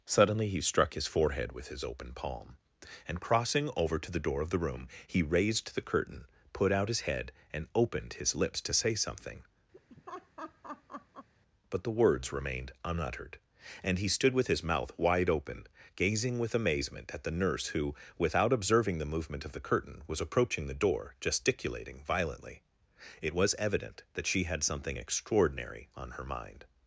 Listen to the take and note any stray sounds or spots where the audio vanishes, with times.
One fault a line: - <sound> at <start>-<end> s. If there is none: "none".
- laugh at 9.7-11.3 s